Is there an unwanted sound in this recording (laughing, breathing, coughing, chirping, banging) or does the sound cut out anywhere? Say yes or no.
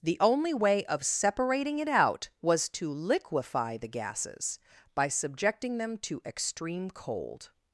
no